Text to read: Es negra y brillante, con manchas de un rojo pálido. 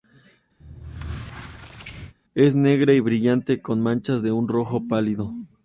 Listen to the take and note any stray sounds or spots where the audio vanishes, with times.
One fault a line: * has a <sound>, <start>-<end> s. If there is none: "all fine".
* has a squeak, 0.6-2.1 s